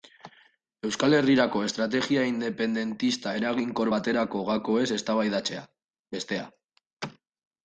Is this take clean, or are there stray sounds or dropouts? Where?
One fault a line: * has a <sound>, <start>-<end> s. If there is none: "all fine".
all fine